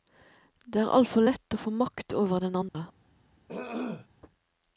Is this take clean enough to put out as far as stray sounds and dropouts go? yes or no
no